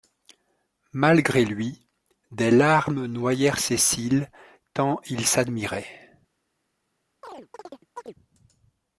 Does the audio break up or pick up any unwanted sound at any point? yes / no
yes